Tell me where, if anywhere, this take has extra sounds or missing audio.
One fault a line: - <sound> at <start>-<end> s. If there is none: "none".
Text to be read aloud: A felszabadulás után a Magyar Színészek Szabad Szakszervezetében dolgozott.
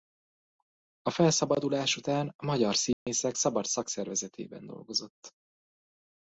- dropout at 2.9-3.1 s